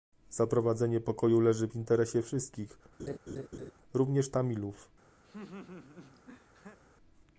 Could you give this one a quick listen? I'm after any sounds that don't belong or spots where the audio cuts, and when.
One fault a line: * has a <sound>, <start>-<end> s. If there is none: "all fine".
* has a laugh, 3.0-3.7 s
* has a laugh, 5.2-6.8 s